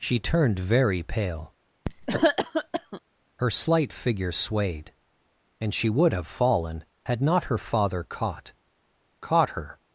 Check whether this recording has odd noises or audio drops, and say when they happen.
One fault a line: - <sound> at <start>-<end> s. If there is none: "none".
- cough at 1.9-3.0 s